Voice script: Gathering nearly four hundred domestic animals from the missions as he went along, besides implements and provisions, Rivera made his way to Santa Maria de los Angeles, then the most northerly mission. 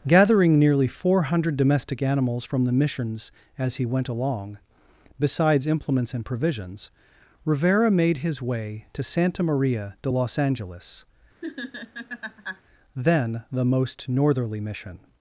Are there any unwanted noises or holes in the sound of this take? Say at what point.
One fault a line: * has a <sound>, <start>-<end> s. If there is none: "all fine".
* has a laugh, 11.4-12.6 s